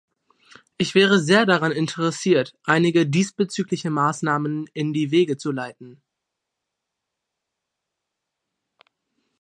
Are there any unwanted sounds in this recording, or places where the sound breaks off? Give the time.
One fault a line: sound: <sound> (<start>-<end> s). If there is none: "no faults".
no faults